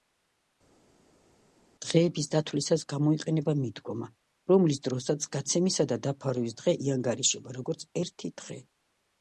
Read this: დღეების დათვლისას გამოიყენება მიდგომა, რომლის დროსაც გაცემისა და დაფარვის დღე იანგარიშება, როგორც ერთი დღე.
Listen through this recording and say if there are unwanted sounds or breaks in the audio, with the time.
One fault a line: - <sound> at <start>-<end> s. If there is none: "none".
none